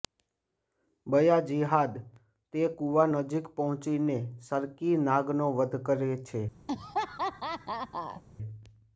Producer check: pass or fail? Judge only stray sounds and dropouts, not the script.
fail